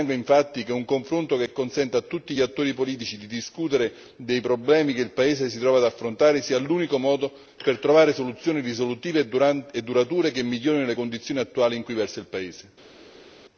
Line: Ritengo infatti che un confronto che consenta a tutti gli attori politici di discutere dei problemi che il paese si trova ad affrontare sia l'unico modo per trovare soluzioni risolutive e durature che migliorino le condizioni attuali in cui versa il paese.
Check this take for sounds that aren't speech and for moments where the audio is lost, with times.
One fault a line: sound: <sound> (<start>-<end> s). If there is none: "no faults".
no faults